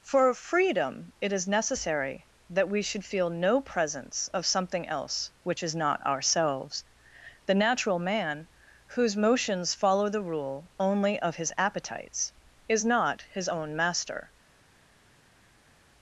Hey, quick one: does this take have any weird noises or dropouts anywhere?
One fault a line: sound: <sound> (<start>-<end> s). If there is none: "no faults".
no faults